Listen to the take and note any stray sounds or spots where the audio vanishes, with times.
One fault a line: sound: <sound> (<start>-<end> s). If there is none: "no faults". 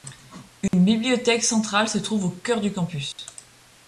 sound: dropout (0.7-0.7 s)
sound: dropout (3.1-3.2 s)